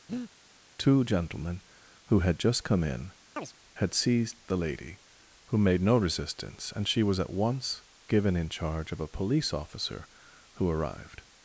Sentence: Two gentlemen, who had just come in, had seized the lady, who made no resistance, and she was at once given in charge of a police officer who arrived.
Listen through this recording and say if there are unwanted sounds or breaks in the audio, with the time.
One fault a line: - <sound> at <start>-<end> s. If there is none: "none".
- breath at 0.1-0.3 s
- chirp at 3.4-3.6 s